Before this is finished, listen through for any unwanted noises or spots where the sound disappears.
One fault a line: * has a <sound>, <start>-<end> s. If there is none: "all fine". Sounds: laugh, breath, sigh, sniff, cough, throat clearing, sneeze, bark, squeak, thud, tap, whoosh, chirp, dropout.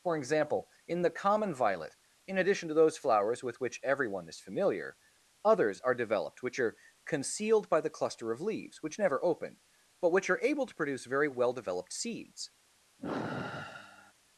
* has a sigh, 13.0-14.1 s